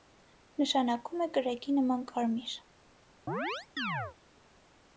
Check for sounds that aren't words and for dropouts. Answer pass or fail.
fail